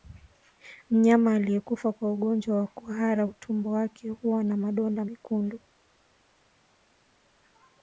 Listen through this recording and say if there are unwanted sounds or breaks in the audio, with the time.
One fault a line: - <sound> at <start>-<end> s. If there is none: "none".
none